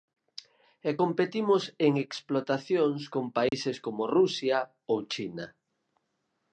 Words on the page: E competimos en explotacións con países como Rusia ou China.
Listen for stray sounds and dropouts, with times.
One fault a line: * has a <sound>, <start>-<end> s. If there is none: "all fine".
* has a dropout, 3.5-3.5 s